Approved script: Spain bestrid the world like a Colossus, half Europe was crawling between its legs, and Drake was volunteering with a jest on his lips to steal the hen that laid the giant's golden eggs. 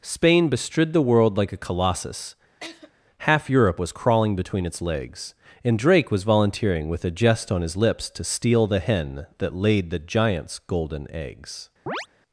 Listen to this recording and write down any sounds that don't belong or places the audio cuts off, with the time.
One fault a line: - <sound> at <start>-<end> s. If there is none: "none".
- laugh at 2.6-2.9 s
- chirp at 11.9-12.1 s